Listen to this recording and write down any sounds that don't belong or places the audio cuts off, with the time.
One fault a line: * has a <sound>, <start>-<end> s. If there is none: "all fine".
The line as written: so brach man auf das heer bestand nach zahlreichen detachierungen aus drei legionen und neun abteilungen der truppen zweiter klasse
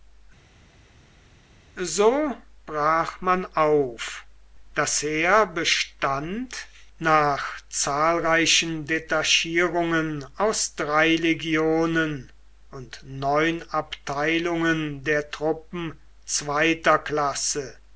all fine